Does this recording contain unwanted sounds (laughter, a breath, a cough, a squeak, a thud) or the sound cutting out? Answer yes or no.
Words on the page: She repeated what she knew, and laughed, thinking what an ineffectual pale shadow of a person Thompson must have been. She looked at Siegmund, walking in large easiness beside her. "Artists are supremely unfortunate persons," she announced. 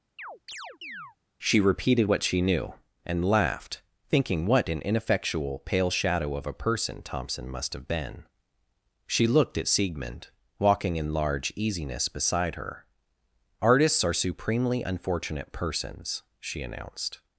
yes